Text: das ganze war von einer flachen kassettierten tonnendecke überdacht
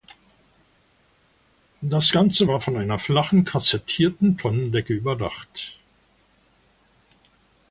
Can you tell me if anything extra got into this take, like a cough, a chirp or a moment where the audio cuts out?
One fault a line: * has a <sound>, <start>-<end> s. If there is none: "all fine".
all fine